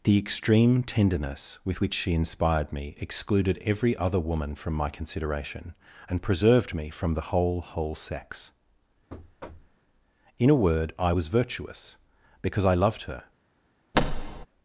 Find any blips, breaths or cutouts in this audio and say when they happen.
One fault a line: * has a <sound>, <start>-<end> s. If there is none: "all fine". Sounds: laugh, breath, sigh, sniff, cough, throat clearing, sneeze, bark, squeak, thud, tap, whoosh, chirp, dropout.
* has a thud, 9.1-9.8 s
* has a thud, 13.9-14.5 s